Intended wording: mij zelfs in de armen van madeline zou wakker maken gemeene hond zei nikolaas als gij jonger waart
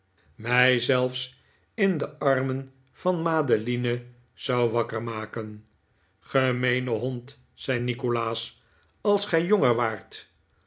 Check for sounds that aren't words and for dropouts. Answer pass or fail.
pass